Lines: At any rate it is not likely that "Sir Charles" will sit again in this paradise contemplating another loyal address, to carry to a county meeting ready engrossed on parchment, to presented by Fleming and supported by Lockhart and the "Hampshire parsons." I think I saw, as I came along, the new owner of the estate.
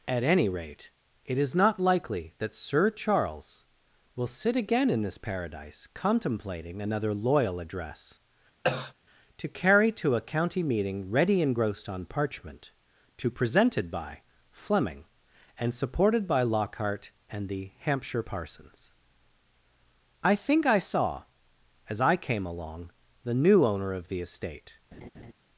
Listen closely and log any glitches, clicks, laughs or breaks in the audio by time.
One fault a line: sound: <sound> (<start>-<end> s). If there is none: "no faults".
sound: cough (8.6-8.9 s)
sound: laugh (24.9-25.3 s)